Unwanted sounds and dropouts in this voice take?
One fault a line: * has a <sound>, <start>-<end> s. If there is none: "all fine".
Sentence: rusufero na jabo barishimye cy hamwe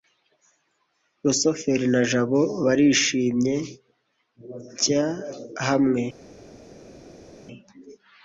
all fine